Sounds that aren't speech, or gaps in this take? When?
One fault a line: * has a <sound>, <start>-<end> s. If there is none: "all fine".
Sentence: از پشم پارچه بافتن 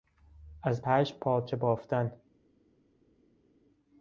all fine